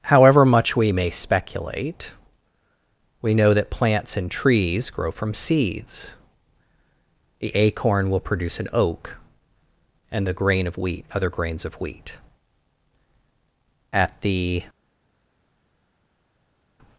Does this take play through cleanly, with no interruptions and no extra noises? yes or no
yes